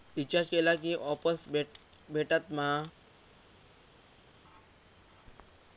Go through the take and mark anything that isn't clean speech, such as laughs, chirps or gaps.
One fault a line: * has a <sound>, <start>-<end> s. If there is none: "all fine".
all fine